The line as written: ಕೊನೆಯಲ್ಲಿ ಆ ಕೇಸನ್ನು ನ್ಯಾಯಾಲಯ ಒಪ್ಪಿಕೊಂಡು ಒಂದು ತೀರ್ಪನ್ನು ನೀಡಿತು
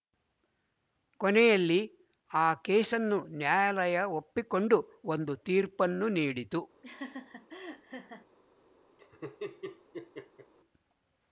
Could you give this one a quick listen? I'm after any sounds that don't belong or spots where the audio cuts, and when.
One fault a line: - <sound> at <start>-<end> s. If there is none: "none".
- laugh at 6.8-8.3 s
- laugh at 9.0-10.5 s